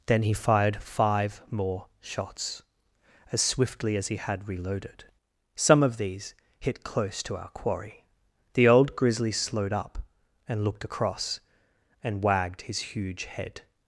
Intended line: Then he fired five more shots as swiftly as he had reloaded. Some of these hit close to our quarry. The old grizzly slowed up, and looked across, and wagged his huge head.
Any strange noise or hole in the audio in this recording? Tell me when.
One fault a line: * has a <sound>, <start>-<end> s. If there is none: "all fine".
all fine